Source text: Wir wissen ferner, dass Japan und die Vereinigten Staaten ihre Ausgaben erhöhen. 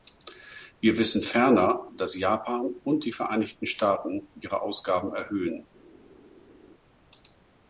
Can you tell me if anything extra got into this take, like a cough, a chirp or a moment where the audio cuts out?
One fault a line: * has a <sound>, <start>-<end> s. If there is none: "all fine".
all fine